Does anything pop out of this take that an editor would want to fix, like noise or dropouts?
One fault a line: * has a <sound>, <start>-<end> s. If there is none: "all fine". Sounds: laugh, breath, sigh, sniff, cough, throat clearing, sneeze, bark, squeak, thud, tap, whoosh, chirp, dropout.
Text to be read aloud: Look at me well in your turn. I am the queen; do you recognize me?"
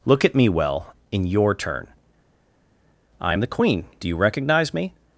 all fine